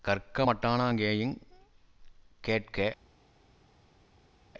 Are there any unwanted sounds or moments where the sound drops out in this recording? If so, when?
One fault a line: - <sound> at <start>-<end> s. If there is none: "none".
none